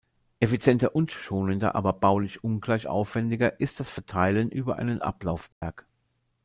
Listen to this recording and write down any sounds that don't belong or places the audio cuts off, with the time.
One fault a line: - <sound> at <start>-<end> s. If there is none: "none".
- dropout at 5.5-5.6 s